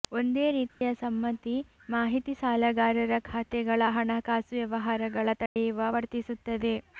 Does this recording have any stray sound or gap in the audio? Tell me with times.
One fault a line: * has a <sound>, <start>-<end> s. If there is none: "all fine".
* has a dropout, 0.7-0.8 s
* has a dropout, 5.5-5.6 s